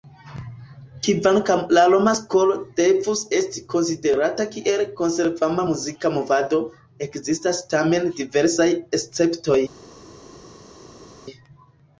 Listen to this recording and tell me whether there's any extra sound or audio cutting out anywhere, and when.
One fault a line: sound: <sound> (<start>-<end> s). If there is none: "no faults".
no faults